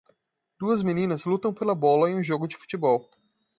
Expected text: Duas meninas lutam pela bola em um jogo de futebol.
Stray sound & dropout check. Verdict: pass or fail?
pass